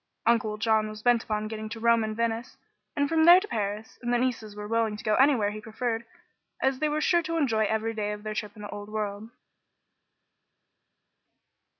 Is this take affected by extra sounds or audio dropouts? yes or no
no